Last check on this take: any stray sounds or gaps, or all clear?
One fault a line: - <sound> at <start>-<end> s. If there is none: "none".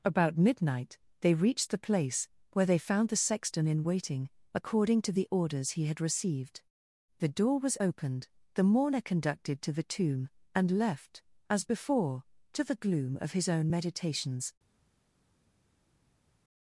none